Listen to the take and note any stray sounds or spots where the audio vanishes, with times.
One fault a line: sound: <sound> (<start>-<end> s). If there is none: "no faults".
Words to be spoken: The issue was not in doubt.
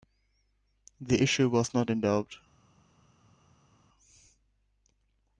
no faults